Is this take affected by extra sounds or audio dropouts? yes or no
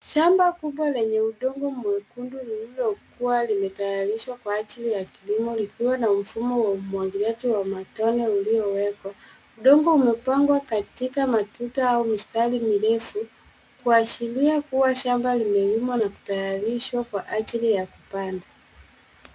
no